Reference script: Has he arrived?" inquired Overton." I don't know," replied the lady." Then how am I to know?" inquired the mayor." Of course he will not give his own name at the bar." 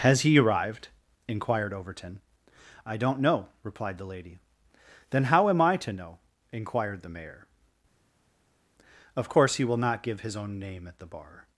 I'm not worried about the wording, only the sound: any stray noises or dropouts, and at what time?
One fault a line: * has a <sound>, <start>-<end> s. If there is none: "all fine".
all fine